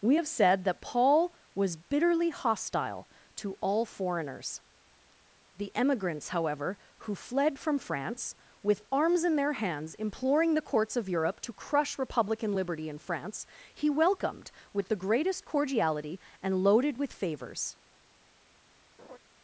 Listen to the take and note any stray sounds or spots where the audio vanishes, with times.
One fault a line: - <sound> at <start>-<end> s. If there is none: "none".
- laugh at 19.0-19.2 s